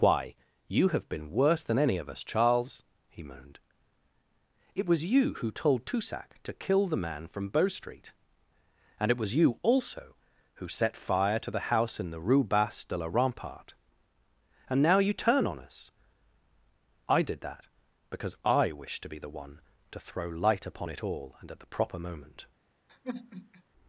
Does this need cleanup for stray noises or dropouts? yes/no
yes